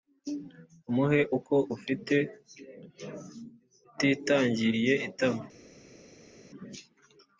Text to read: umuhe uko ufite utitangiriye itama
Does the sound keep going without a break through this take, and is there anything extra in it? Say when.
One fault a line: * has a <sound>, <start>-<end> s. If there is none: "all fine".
all fine